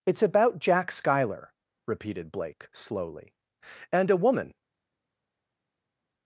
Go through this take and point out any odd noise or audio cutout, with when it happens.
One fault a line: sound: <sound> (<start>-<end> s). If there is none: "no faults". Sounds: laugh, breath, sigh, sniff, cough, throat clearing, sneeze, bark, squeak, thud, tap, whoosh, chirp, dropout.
no faults